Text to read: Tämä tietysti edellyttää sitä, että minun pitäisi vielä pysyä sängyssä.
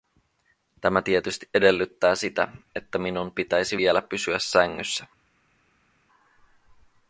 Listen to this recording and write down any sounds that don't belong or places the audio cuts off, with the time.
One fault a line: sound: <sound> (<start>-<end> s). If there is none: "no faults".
no faults